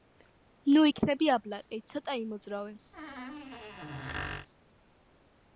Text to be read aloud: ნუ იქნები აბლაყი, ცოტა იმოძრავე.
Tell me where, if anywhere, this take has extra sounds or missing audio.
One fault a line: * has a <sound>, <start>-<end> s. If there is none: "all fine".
* has a squeak, 2.9-4.5 s